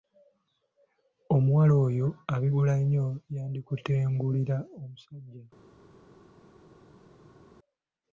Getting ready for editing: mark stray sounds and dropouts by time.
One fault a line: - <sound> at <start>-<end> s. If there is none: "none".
none